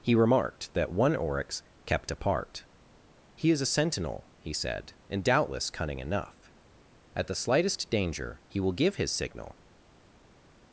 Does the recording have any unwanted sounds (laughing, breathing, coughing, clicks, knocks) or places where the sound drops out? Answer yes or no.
no